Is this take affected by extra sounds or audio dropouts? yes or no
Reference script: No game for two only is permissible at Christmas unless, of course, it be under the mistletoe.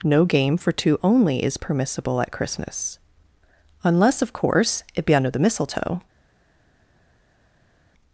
no